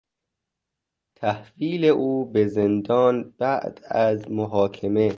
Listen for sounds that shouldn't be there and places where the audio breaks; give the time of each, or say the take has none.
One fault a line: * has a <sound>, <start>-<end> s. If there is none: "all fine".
all fine